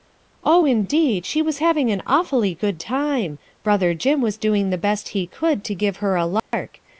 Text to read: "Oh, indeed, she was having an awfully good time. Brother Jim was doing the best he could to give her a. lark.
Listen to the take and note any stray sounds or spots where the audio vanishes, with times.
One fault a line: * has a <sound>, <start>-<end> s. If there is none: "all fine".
* has a dropout, 6.4-6.5 s